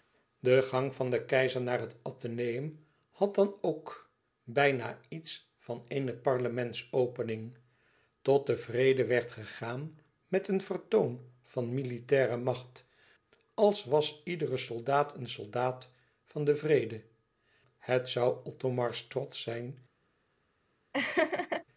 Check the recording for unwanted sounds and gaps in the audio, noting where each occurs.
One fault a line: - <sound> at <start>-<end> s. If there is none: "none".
- laugh at 20.9-21.6 s